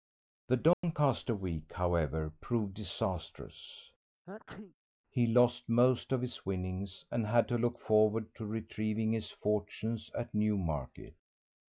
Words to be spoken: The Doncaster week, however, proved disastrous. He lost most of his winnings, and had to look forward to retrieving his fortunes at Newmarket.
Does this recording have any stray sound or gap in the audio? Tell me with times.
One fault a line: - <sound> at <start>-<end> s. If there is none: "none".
- dropout at 0.7-0.8 s
- sneeze at 4.2-4.7 s